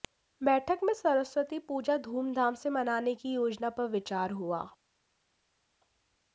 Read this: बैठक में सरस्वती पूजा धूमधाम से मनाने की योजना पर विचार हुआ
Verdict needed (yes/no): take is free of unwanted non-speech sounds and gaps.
yes